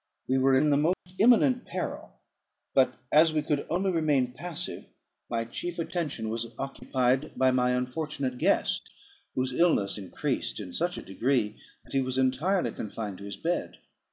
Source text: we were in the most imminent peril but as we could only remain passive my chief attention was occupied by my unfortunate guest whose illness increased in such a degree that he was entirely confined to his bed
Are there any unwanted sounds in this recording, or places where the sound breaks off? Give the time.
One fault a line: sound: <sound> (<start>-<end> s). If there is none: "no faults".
sound: dropout (0.9-1.1 s)